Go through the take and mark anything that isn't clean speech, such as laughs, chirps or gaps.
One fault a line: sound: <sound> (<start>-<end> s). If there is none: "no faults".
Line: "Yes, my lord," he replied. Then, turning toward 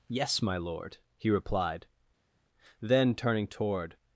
no faults